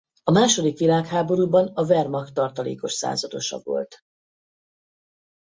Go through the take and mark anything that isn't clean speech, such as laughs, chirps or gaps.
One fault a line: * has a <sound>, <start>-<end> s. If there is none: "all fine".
all fine